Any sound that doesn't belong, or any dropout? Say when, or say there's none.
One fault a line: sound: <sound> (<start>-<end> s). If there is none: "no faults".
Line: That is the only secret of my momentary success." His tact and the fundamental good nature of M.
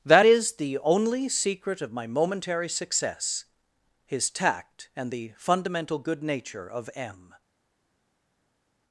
no faults